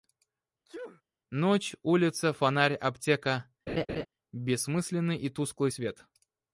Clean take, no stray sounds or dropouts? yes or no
no